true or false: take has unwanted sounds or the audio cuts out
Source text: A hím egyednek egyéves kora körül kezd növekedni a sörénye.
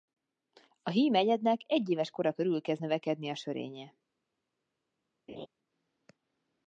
true